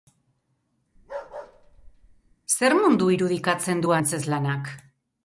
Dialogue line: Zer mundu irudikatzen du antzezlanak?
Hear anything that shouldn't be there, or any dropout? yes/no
yes